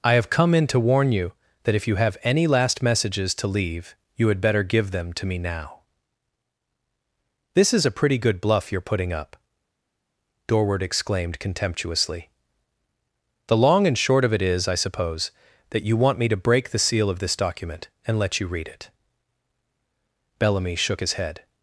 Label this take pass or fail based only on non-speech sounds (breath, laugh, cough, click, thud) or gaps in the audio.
pass